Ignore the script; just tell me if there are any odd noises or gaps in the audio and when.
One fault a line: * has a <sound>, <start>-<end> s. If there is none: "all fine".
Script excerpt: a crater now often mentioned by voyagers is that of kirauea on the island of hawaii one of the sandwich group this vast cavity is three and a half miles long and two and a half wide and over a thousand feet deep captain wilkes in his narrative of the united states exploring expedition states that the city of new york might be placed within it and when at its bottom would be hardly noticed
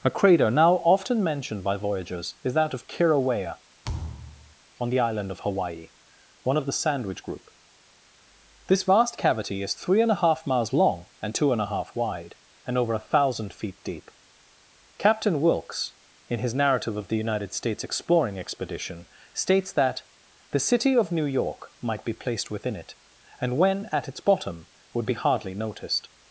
* has a thud, 3.8-4.6 s